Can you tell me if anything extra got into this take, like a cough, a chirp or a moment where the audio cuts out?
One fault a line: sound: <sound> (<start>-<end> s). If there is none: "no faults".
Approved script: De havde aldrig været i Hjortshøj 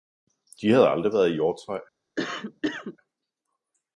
sound: cough (2.2-3.0 s)